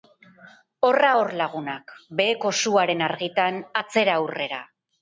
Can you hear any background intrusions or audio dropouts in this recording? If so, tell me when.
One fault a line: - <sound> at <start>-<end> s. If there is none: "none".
none